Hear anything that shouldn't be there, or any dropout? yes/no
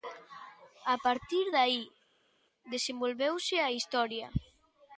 no